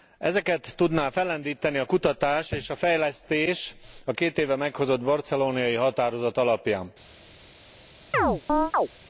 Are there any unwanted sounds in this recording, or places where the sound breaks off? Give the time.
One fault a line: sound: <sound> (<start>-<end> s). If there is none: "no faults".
sound: chirp (8.1-8.9 s)